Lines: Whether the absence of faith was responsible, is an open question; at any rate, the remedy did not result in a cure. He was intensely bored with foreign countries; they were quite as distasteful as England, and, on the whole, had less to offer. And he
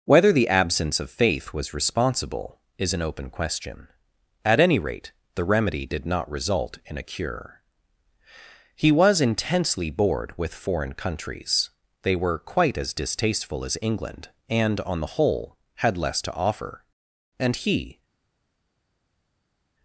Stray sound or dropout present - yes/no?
no